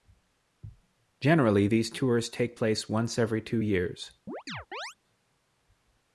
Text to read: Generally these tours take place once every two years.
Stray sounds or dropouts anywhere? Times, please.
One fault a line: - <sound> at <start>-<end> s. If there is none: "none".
- chirp at 4.3-5.0 s